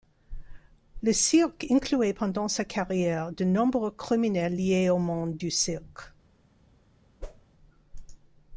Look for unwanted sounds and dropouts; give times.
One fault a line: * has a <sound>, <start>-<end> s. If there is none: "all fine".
* has a whoosh, 7.2-7.5 s